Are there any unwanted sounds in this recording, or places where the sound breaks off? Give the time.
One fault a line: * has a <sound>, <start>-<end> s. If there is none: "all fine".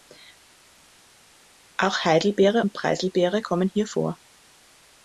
all fine